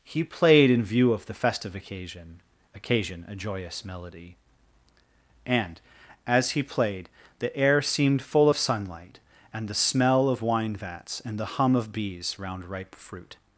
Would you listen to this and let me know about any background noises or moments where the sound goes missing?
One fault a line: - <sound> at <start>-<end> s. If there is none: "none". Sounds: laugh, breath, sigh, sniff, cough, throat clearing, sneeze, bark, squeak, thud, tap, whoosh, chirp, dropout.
none